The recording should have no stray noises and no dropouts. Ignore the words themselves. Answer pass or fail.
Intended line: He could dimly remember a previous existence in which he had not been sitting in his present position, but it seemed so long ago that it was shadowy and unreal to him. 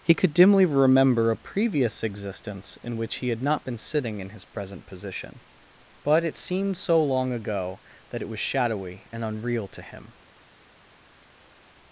pass